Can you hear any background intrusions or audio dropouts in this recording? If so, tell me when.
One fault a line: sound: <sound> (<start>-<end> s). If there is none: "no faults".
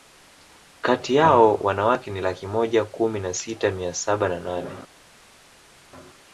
no faults